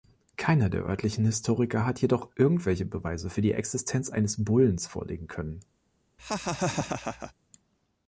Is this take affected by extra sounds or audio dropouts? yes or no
yes